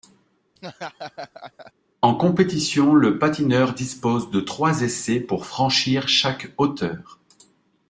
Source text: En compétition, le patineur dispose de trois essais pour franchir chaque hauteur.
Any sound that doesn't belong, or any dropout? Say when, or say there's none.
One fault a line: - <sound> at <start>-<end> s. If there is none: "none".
- laugh at 0.6-1.7 s